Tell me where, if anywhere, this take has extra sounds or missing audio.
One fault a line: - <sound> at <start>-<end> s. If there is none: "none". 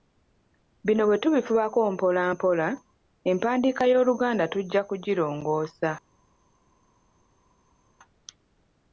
none